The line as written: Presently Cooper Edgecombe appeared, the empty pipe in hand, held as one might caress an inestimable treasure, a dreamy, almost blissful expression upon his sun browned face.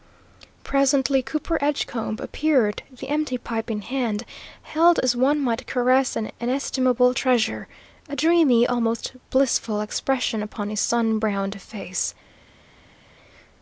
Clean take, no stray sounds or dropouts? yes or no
yes